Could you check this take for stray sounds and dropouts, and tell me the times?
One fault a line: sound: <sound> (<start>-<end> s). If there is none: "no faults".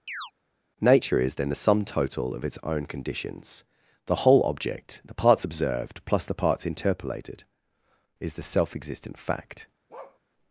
sound: chirp (0.1-0.3 s)
sound: bark (9.9-10.2 s)